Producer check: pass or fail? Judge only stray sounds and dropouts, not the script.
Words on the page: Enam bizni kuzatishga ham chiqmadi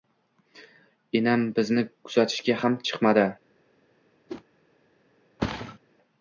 fail